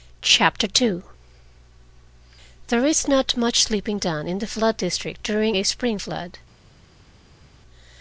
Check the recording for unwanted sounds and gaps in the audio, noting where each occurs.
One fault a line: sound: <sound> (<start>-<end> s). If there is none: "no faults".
no faults